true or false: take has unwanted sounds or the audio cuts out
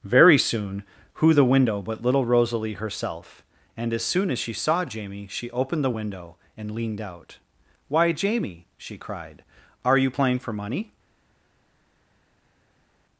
false